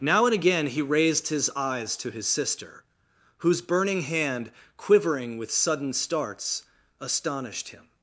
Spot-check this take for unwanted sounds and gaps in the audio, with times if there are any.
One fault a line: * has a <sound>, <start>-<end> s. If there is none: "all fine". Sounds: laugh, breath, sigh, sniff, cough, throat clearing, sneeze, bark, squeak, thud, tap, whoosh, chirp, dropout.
all fine